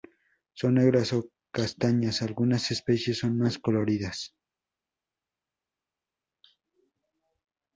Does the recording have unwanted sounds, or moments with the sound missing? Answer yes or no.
no